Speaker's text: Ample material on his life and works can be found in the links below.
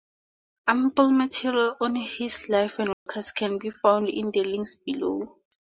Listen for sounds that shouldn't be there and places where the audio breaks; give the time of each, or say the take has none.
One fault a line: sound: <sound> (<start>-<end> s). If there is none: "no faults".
sound: dropout (2.9-3.1 s)